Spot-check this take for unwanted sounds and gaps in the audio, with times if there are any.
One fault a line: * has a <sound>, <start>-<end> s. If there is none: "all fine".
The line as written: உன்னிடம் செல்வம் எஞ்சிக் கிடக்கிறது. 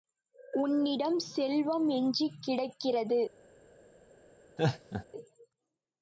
* has a laugh, 4.6-5.1 s